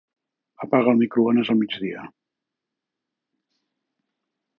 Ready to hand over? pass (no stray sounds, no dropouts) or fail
pass